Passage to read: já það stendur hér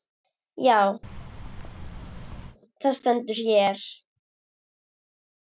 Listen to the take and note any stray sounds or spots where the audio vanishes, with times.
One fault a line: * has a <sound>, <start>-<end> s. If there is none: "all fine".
* has a thud, 1.0-2.6 s